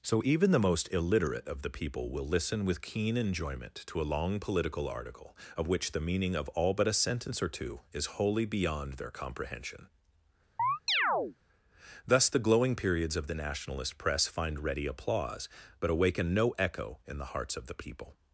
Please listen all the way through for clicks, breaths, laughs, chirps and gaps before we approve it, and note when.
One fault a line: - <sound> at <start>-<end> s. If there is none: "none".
- chirp at 10.6-11.4 s